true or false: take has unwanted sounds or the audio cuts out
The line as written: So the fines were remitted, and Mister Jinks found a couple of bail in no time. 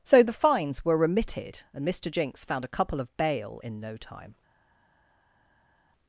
false